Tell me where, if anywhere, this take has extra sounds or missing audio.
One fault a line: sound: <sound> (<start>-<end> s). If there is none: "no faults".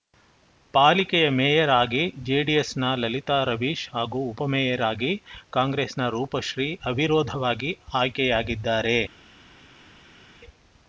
no faults